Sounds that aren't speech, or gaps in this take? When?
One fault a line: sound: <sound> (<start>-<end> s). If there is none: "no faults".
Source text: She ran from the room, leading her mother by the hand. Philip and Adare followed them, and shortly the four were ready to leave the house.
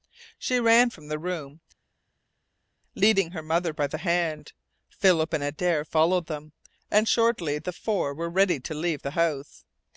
no faults